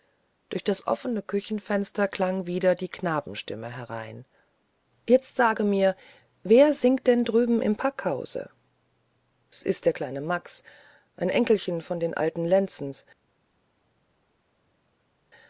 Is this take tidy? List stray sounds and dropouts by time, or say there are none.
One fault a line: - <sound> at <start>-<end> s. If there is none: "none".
none